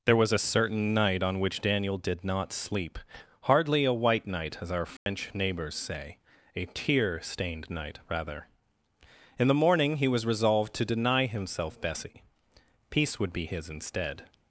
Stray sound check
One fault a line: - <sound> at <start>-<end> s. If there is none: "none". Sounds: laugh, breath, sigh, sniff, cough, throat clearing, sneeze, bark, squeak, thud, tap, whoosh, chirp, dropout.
- dropout at 5.0-5.1 s